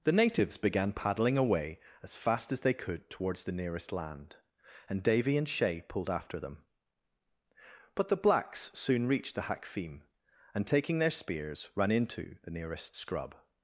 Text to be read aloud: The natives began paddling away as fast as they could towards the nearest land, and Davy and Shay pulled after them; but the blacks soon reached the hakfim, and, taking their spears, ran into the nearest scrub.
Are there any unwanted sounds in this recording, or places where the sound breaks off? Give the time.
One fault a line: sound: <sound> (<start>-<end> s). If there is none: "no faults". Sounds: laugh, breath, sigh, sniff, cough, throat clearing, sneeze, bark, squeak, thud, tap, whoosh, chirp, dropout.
no faults